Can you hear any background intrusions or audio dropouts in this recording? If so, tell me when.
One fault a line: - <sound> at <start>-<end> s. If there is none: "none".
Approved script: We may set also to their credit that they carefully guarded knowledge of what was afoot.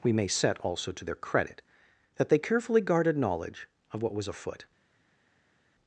none